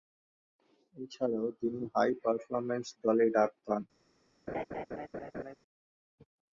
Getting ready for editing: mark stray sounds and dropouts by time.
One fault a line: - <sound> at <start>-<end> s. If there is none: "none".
- laugh at 4.5-5.6 s